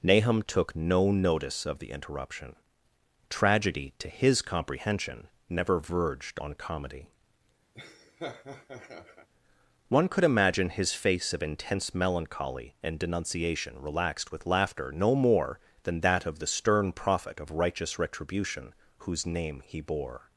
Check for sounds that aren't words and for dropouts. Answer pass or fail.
fail